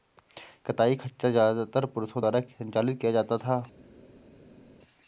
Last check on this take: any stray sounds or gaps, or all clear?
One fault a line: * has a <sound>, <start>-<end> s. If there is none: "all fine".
all fine